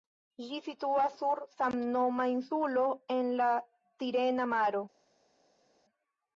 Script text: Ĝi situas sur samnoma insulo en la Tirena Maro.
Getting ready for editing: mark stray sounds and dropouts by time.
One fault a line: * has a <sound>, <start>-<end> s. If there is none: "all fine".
all fine